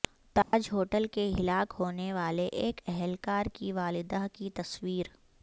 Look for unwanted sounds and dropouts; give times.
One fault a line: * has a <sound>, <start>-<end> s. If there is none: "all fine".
* has a dropout, 0.4-0.5 s